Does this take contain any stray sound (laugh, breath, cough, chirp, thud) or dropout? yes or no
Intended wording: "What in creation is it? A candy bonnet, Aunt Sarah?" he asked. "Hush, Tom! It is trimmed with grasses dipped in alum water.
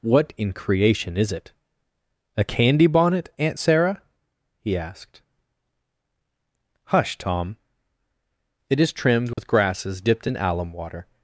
yes